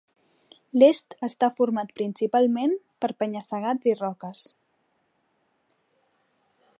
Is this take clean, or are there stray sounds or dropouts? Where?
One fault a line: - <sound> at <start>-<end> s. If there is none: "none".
none